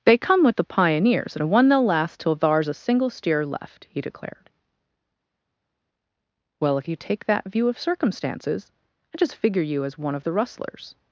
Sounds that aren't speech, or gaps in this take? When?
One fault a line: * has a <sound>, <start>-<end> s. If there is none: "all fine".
all fine